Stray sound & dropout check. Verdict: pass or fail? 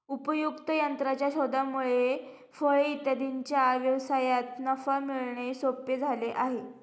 pass